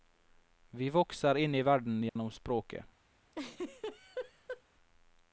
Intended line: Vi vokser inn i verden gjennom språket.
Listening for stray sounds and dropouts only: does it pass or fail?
fail